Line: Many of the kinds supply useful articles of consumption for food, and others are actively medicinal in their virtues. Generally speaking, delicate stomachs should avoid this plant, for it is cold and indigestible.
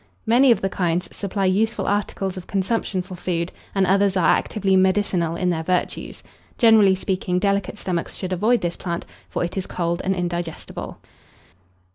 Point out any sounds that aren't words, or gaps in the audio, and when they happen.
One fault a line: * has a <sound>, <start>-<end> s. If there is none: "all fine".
all fine